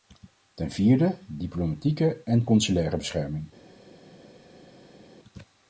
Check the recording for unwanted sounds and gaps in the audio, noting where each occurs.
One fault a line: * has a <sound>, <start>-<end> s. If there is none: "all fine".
all fine